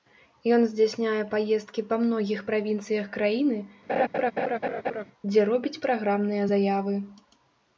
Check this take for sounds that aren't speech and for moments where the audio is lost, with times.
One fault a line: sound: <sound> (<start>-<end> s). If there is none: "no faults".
sound: laugh (3.9-5.0 s)